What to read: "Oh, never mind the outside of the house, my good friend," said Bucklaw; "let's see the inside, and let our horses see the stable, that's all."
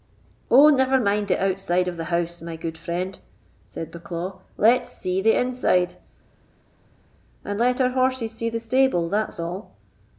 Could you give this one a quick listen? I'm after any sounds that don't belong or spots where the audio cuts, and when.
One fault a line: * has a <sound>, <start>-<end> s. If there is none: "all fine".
all fine